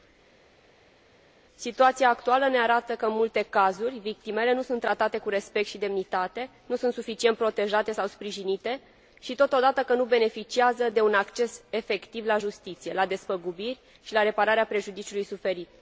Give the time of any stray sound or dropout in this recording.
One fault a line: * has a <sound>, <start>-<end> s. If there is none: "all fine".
all fine